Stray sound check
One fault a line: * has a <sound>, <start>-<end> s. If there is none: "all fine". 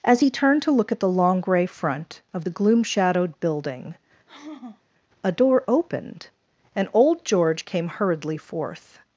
* has a sigh, 4.3-4.8 s